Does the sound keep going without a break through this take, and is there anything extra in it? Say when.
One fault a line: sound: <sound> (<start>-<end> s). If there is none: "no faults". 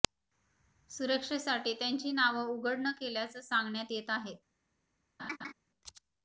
sound: laugh (5.2-5.5 s)